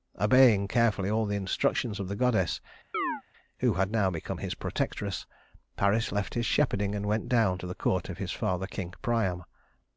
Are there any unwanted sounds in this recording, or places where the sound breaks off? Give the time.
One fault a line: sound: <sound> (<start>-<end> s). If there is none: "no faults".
sound: chirp (2.9-3.2 s)